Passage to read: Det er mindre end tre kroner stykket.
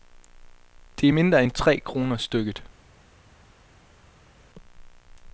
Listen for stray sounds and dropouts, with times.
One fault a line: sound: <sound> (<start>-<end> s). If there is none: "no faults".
no faults